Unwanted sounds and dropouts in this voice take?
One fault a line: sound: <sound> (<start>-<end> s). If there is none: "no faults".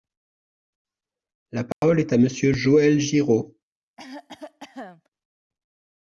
sound: dropout (1.7-1.8 s)
sound: cough (4.0-5.1 s)